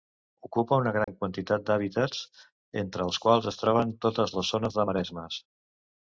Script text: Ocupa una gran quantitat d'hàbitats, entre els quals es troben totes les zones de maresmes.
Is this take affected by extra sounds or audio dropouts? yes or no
yes